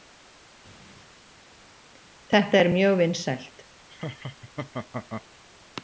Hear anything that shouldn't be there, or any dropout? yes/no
yes